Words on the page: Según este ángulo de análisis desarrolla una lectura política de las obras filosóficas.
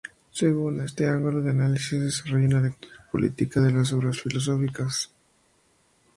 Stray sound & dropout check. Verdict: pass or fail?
pass